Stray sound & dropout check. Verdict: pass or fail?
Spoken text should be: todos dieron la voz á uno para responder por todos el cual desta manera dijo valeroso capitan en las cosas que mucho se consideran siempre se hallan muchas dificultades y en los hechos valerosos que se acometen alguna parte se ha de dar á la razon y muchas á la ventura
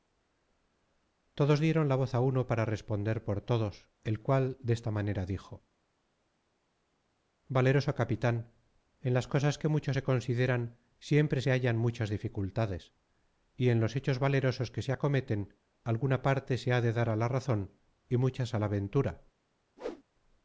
fail